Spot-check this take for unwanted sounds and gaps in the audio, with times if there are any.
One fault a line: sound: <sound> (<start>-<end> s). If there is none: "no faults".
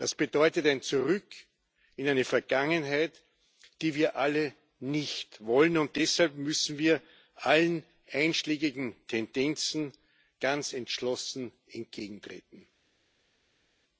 no faults